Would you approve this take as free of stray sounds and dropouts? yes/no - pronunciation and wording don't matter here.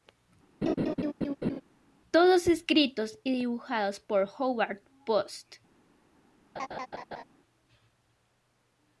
no